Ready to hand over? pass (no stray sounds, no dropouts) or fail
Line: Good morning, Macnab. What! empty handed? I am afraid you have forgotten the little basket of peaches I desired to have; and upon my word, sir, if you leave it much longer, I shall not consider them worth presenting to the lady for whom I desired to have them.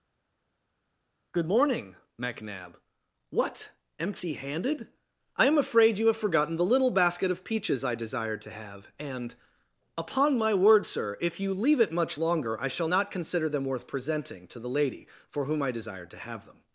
pass